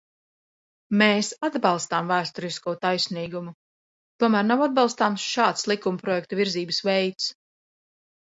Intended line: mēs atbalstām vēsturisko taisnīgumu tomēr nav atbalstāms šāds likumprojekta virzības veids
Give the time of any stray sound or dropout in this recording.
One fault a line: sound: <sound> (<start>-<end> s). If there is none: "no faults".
no faults